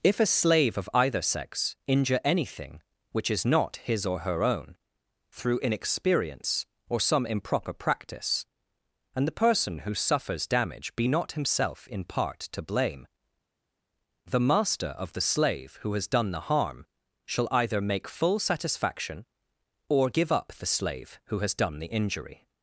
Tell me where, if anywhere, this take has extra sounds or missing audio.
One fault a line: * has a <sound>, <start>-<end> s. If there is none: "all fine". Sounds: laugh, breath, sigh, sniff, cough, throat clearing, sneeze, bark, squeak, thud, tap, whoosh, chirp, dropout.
all fine